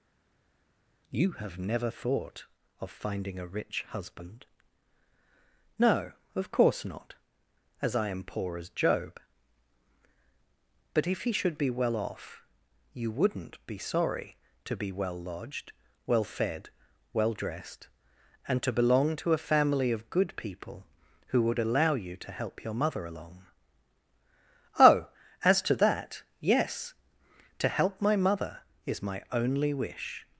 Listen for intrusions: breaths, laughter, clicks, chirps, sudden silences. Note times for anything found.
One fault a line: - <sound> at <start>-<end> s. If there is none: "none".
none